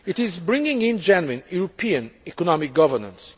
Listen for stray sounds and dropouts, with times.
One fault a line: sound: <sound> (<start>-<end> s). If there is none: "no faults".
no faults